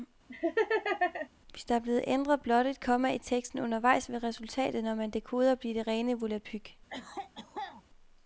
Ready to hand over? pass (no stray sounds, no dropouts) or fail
fail